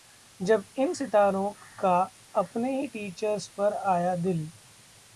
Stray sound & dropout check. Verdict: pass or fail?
pass